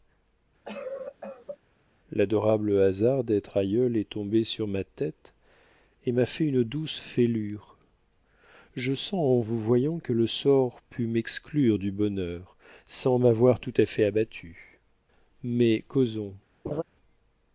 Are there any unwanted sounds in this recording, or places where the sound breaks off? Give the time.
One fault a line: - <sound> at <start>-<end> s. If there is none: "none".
- cough at 0.6-1.6 s
- laugh at 16.6-16.8 s